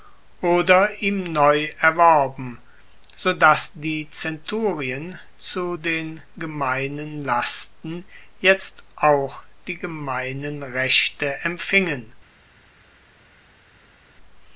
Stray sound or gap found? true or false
false